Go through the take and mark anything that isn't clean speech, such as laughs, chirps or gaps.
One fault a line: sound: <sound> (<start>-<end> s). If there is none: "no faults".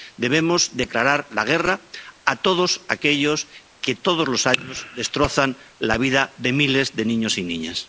no faults